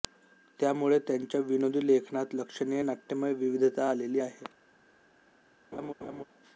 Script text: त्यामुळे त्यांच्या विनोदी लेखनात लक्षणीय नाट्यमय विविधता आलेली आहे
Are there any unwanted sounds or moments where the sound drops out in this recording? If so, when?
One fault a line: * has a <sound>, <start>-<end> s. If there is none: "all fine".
* has a laugh, 5.7-6.2 s